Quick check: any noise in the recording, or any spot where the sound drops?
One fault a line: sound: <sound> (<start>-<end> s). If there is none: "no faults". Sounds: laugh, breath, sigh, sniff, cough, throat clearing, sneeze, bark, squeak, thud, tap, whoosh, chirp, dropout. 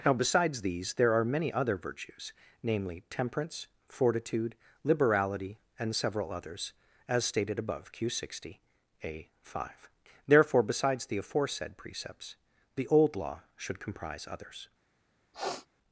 sound: sniff (15.3-15.7 s)